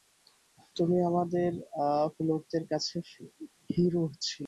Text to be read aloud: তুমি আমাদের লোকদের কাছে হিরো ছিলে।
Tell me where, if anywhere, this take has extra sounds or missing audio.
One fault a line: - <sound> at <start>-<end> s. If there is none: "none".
none